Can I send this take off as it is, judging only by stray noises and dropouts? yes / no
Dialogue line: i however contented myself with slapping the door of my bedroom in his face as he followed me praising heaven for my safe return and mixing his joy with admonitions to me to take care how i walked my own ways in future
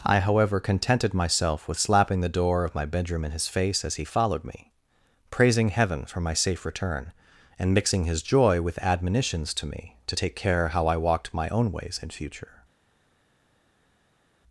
yes